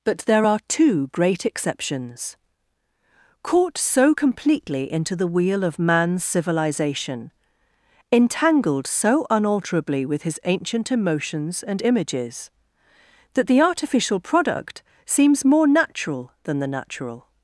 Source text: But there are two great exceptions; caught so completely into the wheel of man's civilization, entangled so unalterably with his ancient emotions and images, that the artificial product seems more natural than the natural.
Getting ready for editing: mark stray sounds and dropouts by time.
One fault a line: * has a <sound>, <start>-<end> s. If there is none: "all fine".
all fine